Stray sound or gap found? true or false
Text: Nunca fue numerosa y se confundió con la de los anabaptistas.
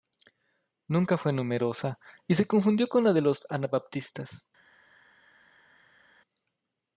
false